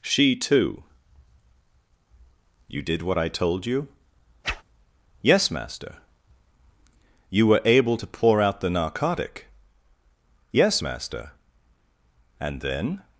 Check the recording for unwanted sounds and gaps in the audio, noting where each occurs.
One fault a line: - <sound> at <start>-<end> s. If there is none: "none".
- whoosh at 4.4-4.6 s